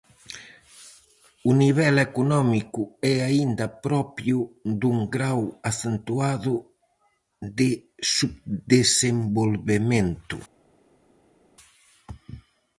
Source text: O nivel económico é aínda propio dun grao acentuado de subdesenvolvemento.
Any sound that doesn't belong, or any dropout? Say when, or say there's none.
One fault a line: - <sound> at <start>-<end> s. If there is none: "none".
none